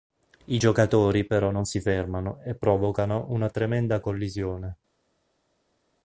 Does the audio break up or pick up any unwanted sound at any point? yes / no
no